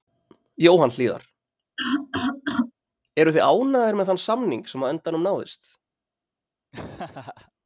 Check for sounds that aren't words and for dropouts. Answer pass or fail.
fail